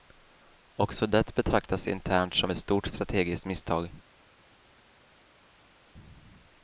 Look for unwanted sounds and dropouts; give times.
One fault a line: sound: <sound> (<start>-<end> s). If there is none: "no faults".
no faults